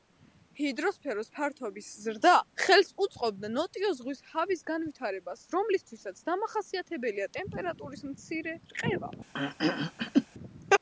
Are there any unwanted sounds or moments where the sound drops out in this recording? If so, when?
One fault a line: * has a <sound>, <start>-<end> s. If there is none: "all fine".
* has a throat clearing, 9.3-10.3 s